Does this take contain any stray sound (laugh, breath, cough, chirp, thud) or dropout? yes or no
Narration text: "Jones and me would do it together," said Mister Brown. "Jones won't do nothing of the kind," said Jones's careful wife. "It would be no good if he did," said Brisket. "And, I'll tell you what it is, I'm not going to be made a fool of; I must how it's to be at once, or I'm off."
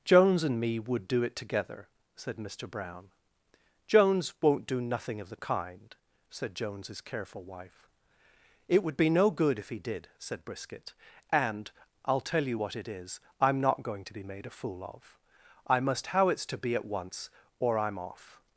no